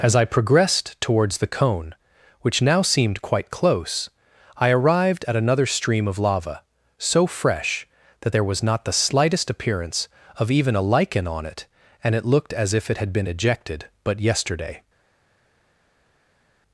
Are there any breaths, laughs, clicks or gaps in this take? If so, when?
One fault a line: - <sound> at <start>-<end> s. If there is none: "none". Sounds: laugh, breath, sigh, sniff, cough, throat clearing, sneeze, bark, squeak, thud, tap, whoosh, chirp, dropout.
none